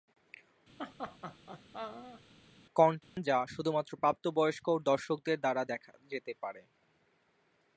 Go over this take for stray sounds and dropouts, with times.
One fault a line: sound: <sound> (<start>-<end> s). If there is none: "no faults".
sound: laugh (0.8-2.2 s)
sound: dropout (3.0-3.2 s)